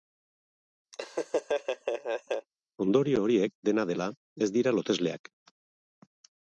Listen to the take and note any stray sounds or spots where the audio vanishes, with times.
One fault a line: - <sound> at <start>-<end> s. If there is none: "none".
- laugh at 0.9-2.5 s